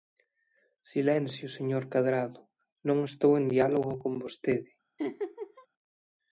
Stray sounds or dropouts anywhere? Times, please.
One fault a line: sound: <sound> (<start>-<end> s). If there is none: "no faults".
sound: laugh (5.0-5.7 s)